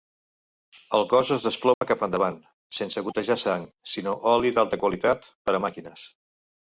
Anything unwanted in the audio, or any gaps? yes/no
yes